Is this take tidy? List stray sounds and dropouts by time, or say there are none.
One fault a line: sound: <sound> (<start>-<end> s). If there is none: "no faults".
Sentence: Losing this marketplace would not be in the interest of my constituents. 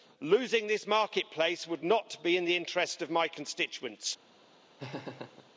sound: laugh (4.8-5.5 s)